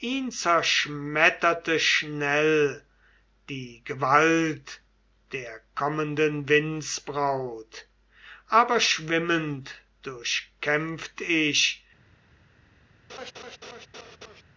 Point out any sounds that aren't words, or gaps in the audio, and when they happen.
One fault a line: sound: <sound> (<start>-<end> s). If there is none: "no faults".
sound: laugh (13.1-14.4 s)